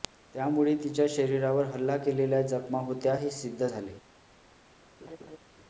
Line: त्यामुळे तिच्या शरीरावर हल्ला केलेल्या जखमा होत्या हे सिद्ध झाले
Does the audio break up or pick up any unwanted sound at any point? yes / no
yes